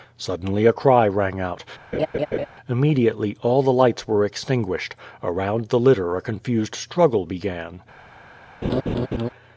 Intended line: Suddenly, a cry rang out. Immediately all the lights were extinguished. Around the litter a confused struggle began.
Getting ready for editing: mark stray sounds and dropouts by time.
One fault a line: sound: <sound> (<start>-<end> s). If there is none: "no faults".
sound: laugh (1.9-2.5 s)
sound: laugh (8.6-9.3 s)